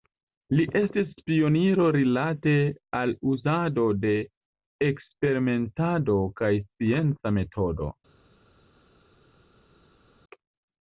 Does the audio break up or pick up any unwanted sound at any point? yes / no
no